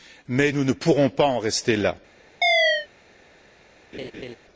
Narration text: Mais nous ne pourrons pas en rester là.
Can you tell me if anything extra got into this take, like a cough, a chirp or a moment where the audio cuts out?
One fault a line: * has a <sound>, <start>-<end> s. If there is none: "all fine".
* has a chirp, 2.4-2.9 s
* has a laugh, 3.9-4.4 s